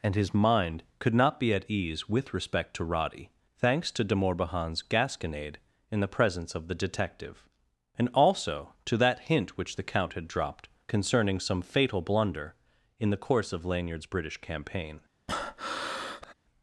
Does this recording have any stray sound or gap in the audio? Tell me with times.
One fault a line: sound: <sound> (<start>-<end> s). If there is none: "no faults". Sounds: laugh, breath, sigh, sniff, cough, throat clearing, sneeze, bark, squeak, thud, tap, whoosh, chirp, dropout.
sound: breath (15.3-16.3 s)